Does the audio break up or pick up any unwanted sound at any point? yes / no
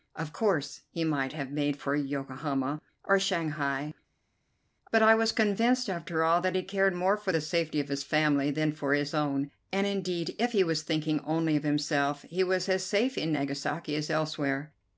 no